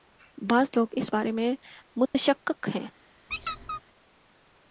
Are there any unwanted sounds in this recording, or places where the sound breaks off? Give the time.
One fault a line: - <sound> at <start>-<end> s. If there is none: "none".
- dropout at 2.1-2.1 s
- squeak at 3.3-3.8 s